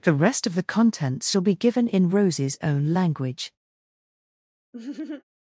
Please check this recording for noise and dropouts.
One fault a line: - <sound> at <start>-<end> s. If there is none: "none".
- laugh at 4.7-5.2 s